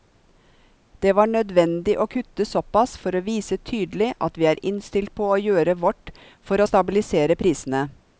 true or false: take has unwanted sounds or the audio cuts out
false